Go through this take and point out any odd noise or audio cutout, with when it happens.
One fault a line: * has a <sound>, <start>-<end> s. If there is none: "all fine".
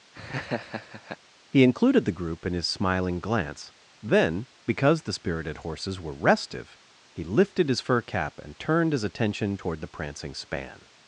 * has a laugh, 0.1-1.2 s